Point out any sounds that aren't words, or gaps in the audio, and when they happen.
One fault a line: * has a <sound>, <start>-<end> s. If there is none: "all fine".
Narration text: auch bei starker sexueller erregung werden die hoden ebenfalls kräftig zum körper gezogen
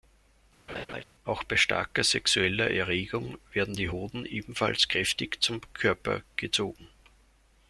* has a laugh, 0.7-1.0 s